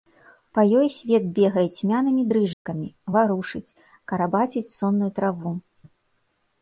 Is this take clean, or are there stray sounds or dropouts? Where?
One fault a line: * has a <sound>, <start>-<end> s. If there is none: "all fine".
* has a dropout, 2.5-2.7 s